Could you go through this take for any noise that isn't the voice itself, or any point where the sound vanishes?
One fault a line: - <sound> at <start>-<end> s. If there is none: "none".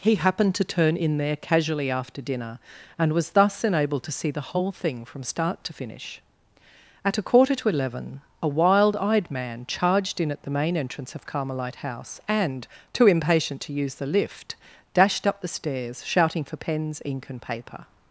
none